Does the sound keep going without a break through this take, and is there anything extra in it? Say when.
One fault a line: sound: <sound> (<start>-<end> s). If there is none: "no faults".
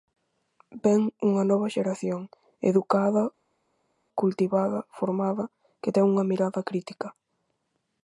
no faults